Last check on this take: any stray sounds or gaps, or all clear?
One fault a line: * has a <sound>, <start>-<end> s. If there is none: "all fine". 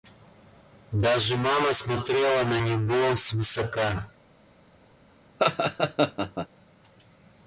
* has a laugh, 5.4-6.5 s